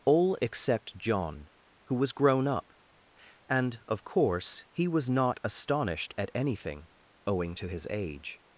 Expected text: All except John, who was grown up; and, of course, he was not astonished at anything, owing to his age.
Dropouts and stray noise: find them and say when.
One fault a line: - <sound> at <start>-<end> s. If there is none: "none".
none